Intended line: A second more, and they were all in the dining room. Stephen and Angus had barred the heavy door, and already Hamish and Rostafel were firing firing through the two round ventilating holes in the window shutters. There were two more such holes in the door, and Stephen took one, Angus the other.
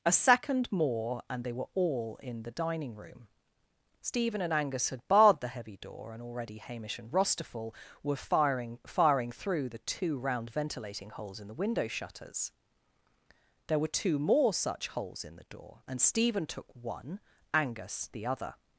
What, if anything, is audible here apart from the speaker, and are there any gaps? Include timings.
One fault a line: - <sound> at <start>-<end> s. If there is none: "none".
none